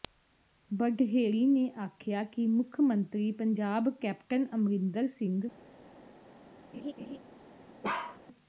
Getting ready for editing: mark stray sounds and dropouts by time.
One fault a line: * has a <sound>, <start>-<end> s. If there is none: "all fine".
* has a laugh, 6.7-7.2 s
* has a bark, 7.8-8.2 s